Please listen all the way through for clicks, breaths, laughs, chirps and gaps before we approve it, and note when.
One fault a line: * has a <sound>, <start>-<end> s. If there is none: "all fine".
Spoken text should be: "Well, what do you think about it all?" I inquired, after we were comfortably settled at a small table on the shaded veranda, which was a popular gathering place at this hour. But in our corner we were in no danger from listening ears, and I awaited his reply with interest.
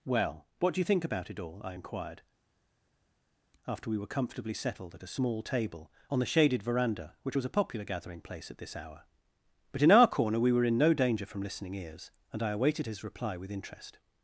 all fine